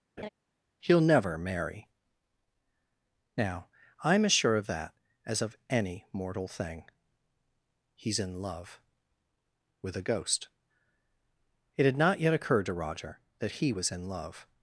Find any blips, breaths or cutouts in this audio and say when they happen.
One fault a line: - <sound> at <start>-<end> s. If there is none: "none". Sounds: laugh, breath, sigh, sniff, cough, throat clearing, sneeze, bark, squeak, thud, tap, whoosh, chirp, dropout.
- laugh at 0.2-0.3 s